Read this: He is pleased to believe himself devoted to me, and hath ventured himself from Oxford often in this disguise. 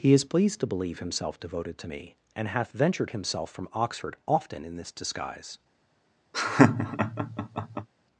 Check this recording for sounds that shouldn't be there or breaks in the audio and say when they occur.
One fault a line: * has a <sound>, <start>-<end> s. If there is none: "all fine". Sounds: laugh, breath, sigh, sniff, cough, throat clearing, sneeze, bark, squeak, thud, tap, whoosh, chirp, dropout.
* has a laugh, 6.3-7.9 s